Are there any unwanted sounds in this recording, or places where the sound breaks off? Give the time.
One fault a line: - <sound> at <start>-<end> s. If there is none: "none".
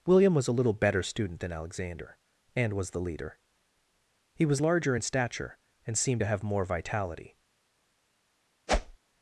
- whoosh at 8.7-9.0 s